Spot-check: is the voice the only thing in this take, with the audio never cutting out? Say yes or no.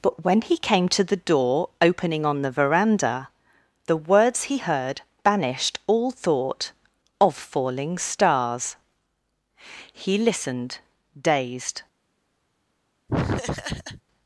no